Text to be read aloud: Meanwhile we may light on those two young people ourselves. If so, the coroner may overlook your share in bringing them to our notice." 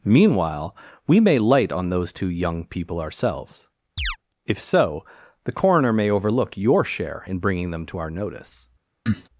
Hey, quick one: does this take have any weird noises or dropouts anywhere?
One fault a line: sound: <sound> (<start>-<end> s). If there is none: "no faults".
sound: chirp (4.0-4.2 s)
sound: cough (9.1-9.3 s)